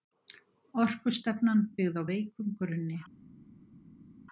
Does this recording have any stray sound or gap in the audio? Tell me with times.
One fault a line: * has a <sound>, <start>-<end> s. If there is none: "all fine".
all fine